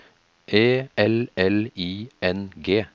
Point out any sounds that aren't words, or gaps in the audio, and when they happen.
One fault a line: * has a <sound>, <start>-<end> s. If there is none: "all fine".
all fine